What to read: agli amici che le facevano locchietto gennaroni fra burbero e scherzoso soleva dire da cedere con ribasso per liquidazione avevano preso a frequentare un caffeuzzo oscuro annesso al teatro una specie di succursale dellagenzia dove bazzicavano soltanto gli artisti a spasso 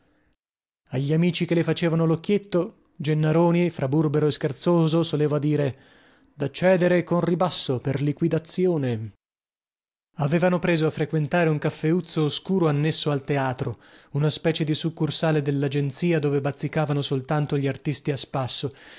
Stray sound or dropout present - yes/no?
no